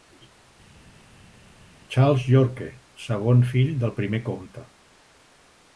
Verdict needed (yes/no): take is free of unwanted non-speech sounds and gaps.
yes